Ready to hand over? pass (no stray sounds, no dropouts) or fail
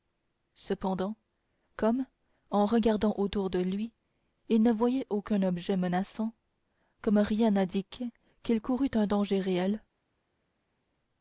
pass